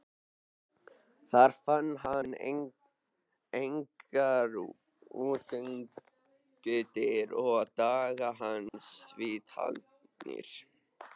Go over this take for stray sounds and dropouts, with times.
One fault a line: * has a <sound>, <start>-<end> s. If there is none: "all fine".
* has a dropout, 8.7-8.7 s